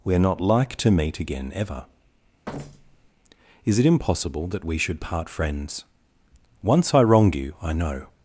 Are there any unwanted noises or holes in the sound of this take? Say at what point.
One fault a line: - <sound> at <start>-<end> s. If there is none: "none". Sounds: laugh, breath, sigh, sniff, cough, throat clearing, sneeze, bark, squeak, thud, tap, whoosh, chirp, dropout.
- thud at 2.5-3.1 s